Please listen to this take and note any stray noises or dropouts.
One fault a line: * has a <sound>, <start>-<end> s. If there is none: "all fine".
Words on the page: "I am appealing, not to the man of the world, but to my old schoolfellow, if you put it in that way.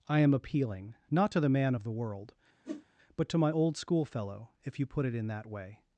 * has a whoosh, 2.6-2.8 s